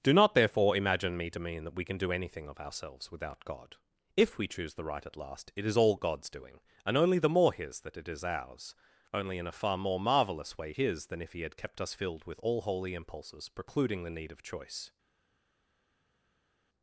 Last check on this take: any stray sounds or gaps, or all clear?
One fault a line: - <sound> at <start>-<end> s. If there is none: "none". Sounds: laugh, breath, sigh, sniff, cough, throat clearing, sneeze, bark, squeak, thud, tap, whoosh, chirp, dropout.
none